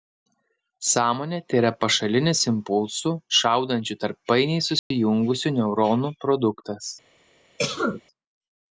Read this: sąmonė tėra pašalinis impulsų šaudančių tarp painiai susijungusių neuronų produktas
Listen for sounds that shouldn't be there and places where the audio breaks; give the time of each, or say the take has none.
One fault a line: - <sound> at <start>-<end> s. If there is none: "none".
- dropout at 4.8-4.9 s
- cough at 7.6-8.0 s